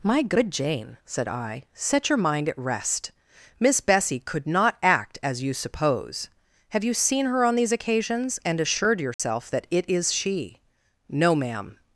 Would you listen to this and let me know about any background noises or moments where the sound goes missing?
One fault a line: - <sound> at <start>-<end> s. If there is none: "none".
- dropout at 9.1-9.2 s